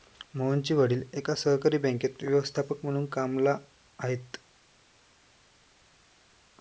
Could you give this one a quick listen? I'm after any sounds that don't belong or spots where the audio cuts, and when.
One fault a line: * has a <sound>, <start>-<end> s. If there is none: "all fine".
all fine